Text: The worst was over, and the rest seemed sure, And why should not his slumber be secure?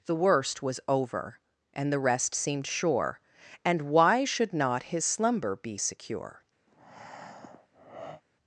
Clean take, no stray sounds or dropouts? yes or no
no